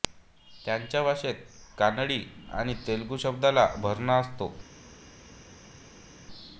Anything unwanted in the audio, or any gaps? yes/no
no